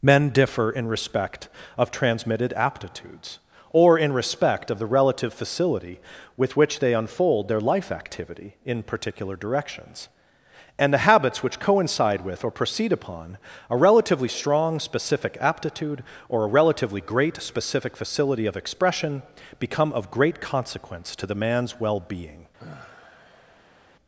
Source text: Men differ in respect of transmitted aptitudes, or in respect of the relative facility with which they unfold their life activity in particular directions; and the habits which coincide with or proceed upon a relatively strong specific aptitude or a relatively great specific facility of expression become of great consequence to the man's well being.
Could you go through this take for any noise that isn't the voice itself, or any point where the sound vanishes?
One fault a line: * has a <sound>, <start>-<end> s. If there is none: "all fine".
* has a sigh, 22.6-23.8 s